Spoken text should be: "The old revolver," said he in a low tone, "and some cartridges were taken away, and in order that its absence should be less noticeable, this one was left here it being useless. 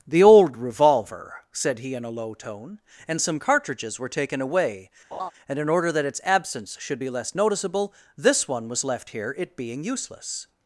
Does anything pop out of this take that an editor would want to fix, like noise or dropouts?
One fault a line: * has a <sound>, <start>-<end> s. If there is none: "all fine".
* has a laugh, 5.1-5.3 s